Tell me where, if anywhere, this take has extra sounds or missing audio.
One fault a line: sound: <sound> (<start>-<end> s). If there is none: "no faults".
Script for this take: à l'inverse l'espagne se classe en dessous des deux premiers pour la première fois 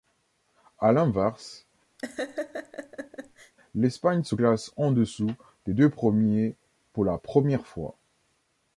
sound: laugh (2.0-3.5 s)